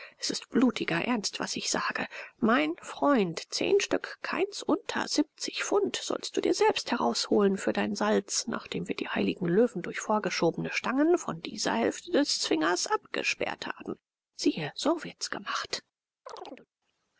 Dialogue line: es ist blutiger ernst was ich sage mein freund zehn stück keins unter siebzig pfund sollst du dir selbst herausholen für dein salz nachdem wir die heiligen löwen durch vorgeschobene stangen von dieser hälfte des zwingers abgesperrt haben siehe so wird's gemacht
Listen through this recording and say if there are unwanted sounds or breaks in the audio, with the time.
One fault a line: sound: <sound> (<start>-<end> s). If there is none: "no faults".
sound: chirp (16.3-16.7 s)